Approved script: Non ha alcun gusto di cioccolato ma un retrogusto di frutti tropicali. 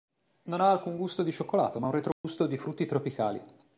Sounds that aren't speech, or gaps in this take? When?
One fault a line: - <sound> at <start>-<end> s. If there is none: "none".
- dropout at 2.1-2.2 s